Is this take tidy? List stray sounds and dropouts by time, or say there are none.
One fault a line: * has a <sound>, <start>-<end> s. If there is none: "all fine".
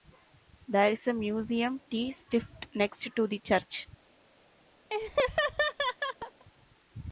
* has a laugh, 4.9-6.5 s